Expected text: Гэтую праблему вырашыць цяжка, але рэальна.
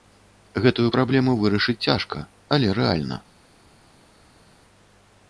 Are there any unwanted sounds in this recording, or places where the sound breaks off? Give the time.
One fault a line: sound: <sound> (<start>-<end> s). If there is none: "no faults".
no faults